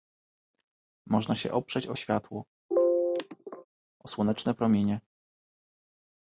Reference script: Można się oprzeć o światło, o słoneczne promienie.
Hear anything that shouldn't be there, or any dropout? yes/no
yes